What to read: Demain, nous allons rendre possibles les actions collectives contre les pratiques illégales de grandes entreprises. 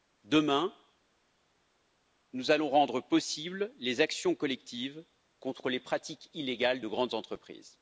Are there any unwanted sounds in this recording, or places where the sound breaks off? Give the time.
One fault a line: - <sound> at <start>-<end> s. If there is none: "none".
none